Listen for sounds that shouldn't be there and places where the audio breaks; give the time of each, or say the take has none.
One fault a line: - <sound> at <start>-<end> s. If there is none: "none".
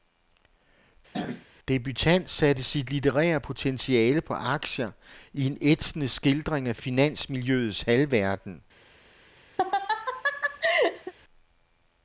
- throat clearing at 1.1-1.5 s
- laugh at 9.6-11.1 s